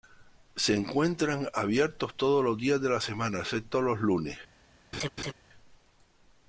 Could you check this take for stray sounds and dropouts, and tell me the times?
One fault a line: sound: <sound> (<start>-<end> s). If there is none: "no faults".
sound: laugh (4.9-5.3 s)